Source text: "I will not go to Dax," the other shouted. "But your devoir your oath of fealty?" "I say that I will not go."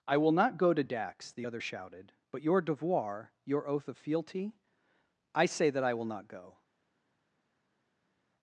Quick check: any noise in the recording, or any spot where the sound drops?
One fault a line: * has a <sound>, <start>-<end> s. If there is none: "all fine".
all fine